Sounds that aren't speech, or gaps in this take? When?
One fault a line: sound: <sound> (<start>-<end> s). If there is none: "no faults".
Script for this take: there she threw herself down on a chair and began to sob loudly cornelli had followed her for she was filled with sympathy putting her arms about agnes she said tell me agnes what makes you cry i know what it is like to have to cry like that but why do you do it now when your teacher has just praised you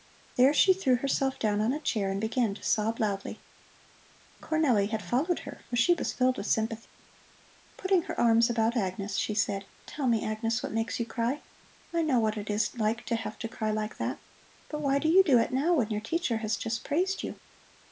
sound: dropout (6.9-7.0 s)